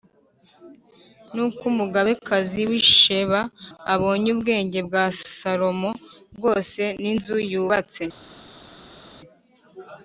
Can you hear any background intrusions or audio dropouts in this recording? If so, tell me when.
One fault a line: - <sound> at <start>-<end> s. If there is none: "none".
none